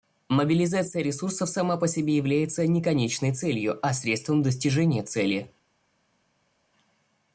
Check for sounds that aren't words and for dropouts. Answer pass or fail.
pass